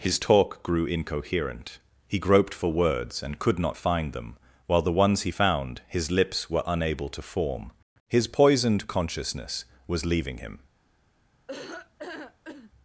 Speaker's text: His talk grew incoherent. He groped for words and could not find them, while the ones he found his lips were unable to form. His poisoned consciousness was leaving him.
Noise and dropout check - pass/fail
fail